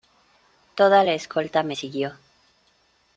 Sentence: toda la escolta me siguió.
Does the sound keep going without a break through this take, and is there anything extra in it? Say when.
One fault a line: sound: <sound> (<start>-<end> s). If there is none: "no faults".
no faults